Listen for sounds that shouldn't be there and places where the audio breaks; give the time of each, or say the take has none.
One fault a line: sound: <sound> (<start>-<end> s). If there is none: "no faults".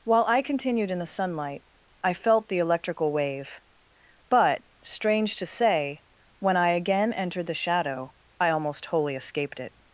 no faults